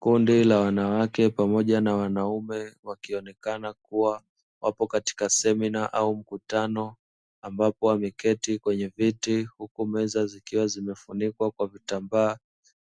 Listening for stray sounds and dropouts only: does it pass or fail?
pass